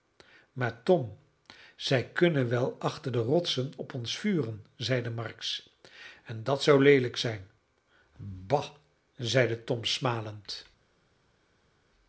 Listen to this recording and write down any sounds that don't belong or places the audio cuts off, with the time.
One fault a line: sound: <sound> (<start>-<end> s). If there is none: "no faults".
no faults